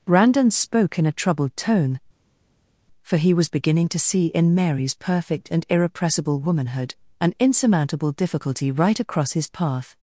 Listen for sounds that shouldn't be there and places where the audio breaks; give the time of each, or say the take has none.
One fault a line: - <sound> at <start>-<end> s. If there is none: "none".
none